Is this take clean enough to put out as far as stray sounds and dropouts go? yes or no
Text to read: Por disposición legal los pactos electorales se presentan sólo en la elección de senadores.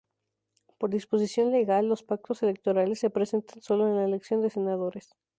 yes